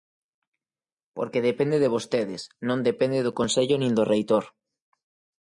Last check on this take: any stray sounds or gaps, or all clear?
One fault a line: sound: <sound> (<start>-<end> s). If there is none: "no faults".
no faults